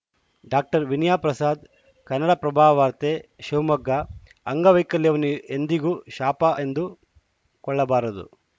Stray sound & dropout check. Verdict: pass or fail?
pass